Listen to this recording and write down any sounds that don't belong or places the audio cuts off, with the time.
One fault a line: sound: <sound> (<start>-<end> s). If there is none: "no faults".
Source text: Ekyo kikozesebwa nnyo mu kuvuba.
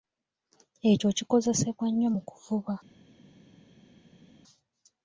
no faults